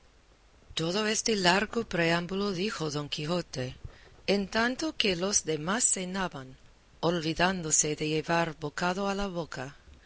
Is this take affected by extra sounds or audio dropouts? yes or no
no